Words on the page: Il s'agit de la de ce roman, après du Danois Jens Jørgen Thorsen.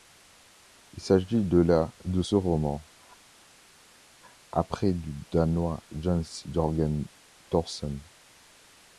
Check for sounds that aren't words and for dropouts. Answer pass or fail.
pass